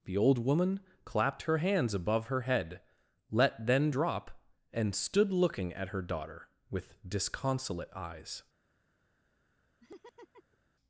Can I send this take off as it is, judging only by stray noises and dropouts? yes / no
no